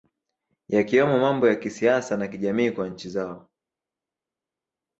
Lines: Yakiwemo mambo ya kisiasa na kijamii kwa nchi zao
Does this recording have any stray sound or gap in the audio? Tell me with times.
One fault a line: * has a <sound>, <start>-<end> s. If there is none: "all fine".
all fine